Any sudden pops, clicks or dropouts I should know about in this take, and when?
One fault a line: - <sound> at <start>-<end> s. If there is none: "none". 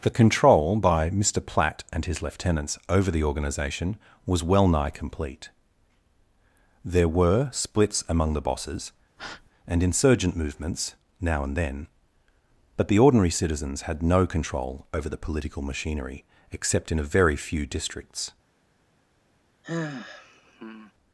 - breath at 9.2-9.5 s
- sigh at 19.6-20.9 s